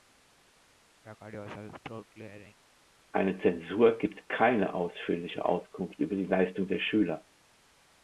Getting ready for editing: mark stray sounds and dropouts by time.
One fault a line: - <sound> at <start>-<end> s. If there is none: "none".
- throat clearing at 1.0-2.6 s